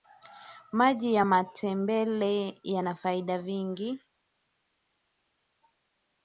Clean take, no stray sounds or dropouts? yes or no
yes